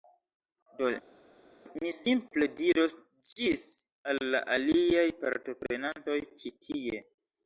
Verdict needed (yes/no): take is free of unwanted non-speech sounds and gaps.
yes